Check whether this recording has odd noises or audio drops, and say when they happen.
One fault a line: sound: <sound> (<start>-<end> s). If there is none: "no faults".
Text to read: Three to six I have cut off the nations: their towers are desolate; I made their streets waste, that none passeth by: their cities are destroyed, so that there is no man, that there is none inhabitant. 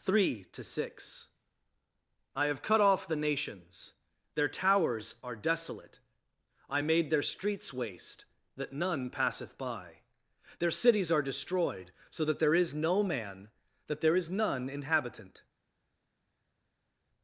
no faults